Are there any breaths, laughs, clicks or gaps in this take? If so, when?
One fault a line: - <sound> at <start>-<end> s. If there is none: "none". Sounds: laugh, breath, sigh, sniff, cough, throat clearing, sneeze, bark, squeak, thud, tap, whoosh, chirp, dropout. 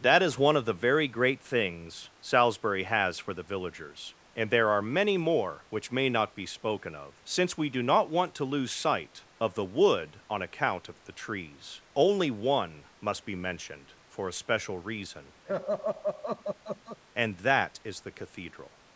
- laugh at 15.5-17.0 s